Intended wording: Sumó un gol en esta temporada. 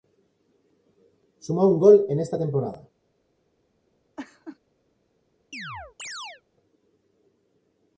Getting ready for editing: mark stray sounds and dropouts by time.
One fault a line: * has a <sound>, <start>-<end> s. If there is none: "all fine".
* has a laugh, 4.2-4.6 s
* has a chirp, 5.5-6.4 s